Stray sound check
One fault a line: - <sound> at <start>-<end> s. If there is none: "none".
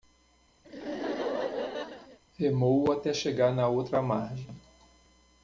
- laugh at 0.6-2.2 s